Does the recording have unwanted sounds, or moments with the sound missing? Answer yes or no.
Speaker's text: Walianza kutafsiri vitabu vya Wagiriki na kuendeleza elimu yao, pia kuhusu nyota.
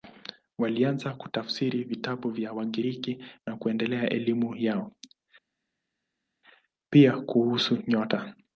no